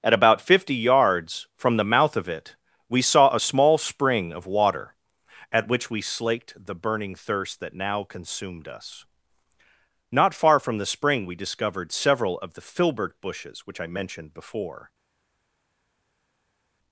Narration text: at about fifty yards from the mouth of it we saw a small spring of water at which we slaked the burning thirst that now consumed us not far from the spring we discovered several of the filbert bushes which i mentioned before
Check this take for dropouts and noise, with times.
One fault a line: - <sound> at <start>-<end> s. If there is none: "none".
none